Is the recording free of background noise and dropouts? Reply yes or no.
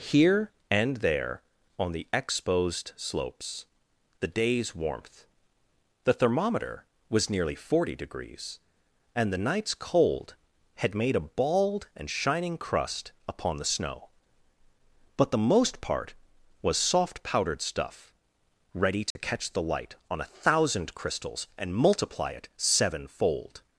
no